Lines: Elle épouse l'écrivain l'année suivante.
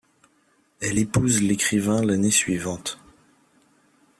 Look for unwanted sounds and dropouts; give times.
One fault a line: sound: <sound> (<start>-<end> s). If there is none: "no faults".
no faults